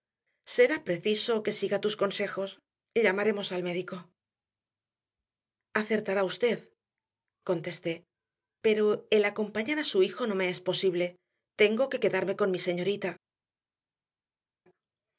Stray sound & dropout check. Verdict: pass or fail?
pass